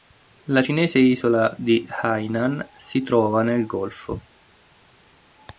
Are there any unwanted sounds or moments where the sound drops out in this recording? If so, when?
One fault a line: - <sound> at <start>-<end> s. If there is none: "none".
none